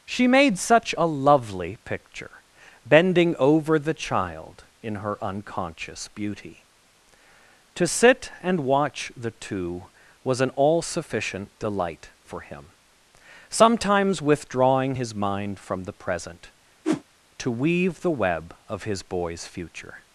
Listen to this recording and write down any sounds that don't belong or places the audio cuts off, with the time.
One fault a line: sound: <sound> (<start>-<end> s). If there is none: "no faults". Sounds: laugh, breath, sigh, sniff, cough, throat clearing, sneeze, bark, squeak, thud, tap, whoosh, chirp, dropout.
sound: whoosh (16.8-17.0 s)